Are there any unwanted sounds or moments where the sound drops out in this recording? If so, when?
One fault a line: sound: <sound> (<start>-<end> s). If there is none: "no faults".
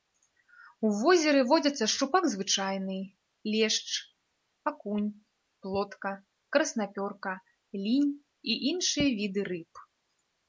no faults